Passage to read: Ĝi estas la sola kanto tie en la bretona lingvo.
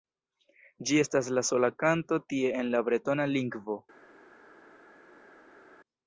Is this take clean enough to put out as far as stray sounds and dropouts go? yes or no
yes